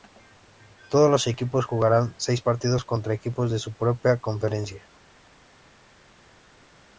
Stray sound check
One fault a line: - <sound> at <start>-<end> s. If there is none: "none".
none